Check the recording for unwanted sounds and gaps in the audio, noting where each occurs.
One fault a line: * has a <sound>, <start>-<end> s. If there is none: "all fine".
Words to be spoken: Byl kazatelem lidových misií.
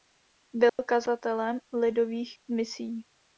* has a dropout, 0.7-0.8 s